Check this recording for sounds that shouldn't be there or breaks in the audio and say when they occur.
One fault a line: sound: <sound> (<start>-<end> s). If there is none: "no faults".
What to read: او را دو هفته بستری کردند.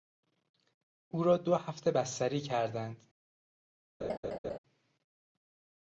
sound: laugh (4.0-4.6 s)